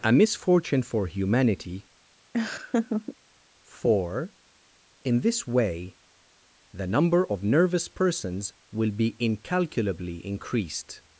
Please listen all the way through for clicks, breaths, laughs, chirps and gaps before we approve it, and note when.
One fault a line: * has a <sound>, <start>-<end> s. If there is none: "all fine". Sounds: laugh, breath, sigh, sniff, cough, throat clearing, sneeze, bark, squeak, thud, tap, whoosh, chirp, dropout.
* has a laugh, 2.3-3.2 s